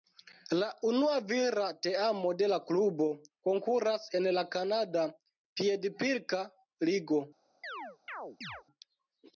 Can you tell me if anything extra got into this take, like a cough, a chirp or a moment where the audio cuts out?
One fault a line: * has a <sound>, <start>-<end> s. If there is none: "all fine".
* has a chirp, 7.6-8.6 s